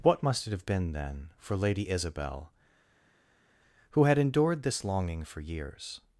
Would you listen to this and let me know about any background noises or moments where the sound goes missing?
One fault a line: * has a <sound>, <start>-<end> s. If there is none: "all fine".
all fine